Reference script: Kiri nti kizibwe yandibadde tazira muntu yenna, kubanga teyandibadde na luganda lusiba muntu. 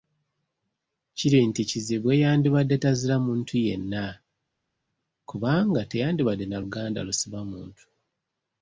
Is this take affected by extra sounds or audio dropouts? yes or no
no